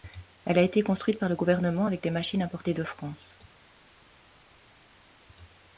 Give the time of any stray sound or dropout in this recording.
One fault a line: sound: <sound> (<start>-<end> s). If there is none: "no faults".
no faults